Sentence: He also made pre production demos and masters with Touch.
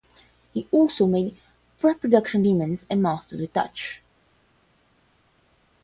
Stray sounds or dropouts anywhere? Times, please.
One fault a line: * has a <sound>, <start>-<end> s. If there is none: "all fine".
all fine